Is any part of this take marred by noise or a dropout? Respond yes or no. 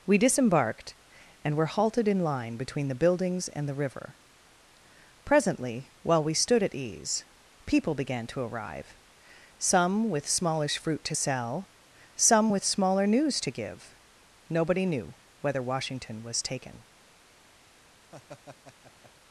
yes